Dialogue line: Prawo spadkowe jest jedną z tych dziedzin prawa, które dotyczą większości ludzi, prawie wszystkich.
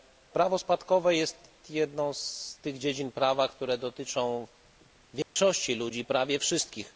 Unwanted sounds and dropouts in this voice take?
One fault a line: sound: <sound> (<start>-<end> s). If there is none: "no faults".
sound: dropout (5.2-5.4 s)